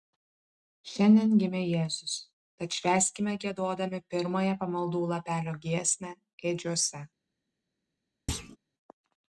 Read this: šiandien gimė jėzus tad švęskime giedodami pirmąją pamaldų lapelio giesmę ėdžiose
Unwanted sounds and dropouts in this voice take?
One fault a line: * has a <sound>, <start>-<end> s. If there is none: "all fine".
* has a thud, 8.3-8.6 s